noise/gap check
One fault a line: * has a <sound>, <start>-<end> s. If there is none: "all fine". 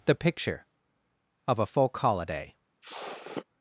* has a sniff, 2.8-3.5 s